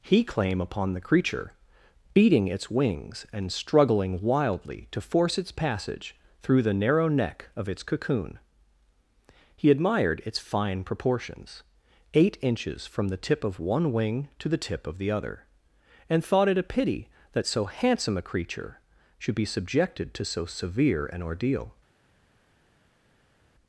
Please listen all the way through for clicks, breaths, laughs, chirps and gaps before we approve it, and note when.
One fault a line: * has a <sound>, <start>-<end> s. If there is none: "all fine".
all fine